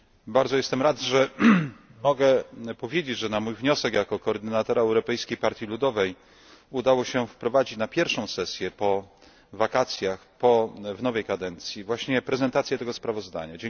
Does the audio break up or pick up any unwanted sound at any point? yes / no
no